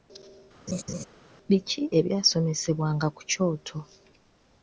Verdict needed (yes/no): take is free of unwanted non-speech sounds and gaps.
no